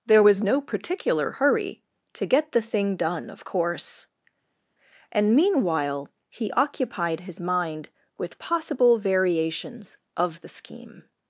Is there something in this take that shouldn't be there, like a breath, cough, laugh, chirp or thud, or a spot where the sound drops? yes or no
no